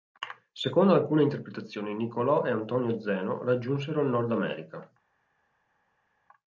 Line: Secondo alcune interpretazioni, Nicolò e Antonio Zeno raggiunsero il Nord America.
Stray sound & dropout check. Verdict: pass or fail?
pass